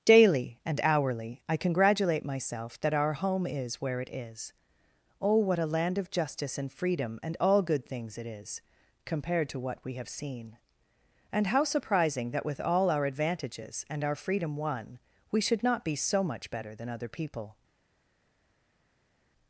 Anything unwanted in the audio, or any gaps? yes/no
no